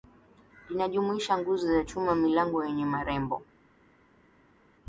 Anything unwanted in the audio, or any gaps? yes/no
no